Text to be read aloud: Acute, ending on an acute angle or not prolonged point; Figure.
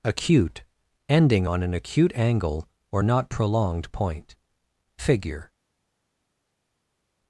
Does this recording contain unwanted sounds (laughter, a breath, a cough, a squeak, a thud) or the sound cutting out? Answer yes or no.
no